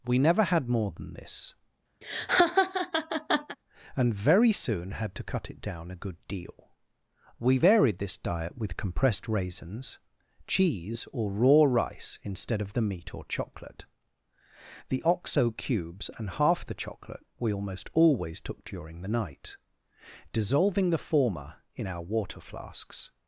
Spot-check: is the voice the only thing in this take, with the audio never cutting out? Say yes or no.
no